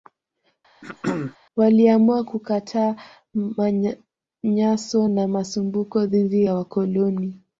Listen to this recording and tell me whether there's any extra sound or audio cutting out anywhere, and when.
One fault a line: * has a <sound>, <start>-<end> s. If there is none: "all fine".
* has a throat clearing, 0.8-1.4 s